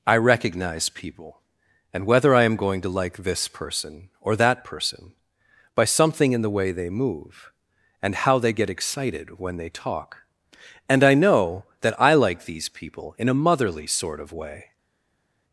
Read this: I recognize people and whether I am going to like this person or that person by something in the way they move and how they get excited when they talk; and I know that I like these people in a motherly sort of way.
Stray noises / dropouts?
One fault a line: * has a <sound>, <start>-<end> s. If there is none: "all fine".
all fine